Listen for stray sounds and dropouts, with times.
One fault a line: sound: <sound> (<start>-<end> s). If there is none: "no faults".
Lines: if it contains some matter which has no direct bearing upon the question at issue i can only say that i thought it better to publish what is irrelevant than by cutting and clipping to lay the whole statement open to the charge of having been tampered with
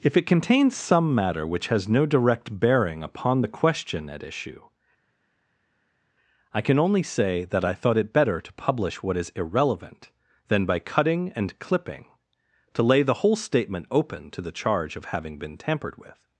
no faults